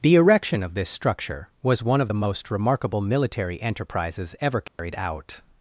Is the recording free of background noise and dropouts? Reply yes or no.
no